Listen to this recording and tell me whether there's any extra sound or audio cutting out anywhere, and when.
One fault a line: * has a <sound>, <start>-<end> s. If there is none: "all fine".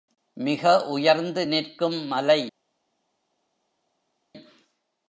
all fine